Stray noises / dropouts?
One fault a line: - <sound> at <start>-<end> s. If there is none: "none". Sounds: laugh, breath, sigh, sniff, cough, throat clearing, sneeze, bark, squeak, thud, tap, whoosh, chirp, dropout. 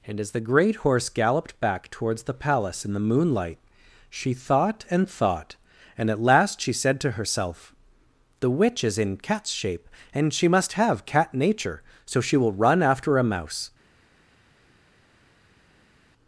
none